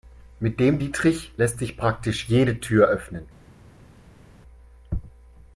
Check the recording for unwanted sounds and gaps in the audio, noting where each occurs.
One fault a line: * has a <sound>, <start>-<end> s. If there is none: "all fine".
all fine